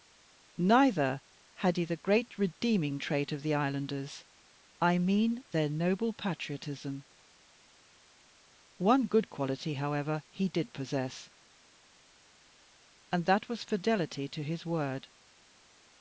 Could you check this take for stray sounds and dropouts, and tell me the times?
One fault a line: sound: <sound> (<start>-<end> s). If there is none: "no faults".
no faults